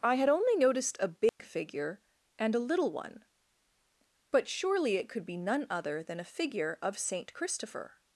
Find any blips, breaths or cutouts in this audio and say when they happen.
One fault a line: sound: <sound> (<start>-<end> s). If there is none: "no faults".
sound: dropout (1.3-1.4 s)